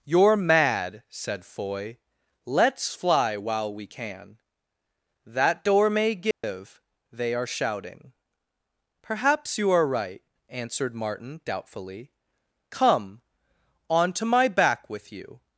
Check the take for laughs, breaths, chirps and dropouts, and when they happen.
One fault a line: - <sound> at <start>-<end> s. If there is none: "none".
- dropout at 6.3-6.4 s